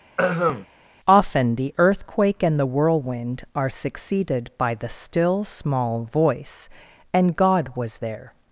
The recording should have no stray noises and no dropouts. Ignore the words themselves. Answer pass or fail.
fail